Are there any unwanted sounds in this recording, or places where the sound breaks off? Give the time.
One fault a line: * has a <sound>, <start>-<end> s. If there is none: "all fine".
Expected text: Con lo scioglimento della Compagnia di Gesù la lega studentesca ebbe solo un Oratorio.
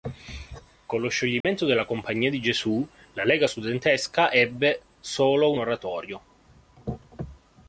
* has a dropout, 1.4-1.4 s